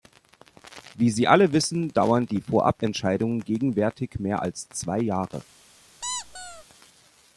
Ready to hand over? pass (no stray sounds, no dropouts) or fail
fail